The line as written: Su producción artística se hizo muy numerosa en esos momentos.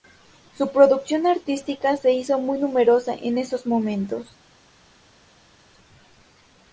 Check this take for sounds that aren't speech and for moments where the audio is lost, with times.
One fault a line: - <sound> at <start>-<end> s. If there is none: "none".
none